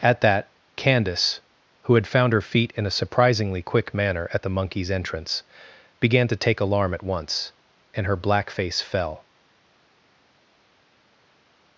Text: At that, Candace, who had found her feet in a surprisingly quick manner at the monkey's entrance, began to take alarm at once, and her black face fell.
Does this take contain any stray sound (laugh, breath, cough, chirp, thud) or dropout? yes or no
no